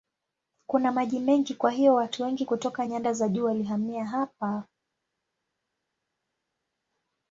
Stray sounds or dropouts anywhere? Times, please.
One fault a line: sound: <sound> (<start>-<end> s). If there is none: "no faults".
no faults